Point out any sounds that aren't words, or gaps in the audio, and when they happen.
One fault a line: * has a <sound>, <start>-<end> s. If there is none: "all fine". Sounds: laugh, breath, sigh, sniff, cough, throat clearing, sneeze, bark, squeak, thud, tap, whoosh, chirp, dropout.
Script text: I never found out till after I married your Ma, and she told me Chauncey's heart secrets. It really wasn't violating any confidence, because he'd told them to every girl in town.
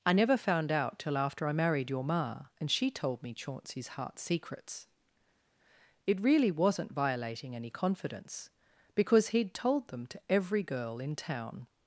all fine